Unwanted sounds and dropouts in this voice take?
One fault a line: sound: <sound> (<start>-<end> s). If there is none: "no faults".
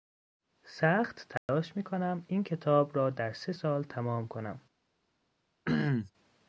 sound: dropout (1.4-1.5 s)
sound: throat clearing (5.7-6.1 s)